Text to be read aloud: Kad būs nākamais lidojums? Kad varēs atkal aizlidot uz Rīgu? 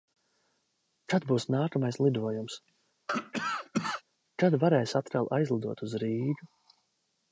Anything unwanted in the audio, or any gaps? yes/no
yes